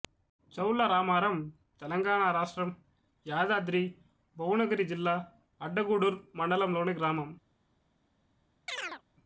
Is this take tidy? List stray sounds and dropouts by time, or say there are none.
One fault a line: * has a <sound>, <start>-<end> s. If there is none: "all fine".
* has a chirp, 8.7-9.0 s